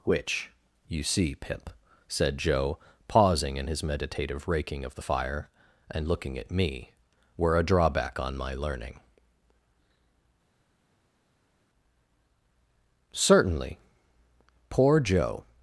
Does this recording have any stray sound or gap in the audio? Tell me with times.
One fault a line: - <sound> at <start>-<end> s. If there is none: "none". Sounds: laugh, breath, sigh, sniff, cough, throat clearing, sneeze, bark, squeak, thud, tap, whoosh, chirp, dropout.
none